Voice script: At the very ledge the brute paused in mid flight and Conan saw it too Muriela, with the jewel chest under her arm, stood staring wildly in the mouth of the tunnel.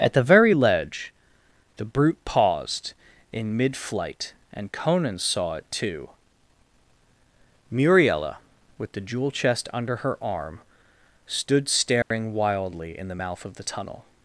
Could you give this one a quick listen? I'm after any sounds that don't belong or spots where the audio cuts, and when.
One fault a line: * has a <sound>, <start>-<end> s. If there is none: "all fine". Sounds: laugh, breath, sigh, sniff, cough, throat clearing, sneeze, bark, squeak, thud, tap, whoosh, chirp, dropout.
* has a dropout, 12.0-12.1 s